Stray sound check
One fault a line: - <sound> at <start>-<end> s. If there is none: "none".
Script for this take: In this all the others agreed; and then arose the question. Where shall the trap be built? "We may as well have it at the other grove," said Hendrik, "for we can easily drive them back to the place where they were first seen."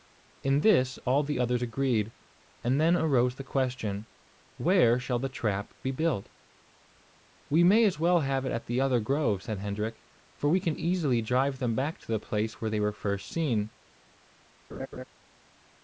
- laugh at 14.7-15.0 s